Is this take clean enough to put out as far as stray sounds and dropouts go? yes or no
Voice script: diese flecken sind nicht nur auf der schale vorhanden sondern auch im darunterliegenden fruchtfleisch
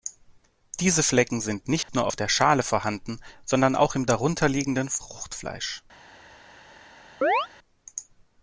no